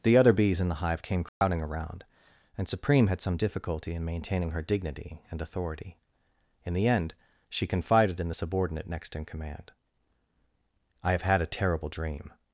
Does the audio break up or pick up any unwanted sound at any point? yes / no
yes